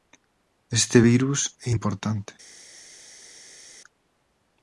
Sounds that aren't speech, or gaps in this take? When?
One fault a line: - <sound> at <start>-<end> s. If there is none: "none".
none